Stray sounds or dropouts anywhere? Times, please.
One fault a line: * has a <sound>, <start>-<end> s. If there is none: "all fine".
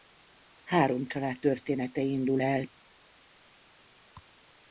all fine